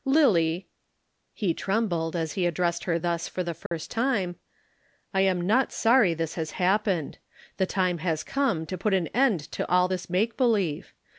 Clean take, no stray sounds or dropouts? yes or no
no